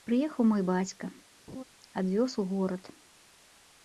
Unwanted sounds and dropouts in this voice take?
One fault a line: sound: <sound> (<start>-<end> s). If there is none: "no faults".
sound: laugh (1.5-1.6 s)